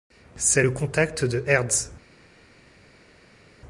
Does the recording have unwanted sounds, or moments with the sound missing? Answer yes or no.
no